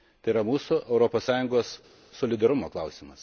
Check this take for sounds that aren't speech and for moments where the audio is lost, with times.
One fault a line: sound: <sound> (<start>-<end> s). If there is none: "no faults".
no faults